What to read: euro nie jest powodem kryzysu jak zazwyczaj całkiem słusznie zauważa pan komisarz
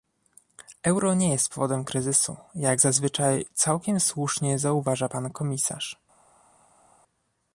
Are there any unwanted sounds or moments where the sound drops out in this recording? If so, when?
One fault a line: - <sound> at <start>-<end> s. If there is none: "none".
none